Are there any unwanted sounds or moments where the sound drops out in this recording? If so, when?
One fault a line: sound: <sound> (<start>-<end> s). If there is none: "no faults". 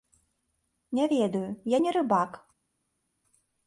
no faults